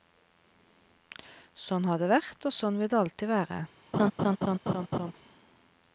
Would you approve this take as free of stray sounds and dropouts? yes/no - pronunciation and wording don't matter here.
no